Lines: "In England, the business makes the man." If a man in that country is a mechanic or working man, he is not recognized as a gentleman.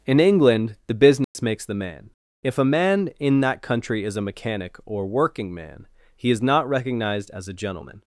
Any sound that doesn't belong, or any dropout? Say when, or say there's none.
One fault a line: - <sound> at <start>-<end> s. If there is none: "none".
- dropout at 1.2-1.3 s